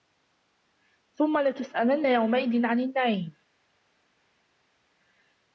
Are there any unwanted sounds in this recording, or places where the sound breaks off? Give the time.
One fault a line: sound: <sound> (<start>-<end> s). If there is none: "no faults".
no faults